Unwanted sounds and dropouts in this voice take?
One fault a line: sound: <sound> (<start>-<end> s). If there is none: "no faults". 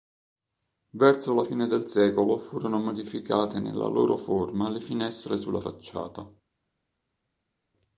no faults